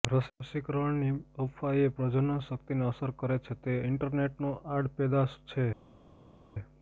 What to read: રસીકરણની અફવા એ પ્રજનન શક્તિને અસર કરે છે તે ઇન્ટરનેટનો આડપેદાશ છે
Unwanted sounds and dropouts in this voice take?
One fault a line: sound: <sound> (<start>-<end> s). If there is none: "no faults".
no faults